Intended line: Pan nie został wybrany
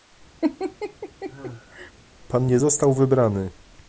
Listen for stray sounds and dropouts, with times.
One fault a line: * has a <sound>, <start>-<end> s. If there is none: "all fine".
* has a laugh, 0.4-1.9 s